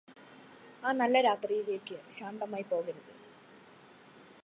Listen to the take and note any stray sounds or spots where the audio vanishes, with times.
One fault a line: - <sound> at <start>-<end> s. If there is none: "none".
none